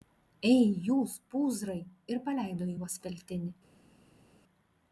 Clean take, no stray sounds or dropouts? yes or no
yes